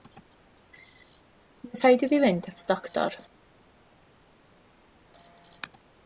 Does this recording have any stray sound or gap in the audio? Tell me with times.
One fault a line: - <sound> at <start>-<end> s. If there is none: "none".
none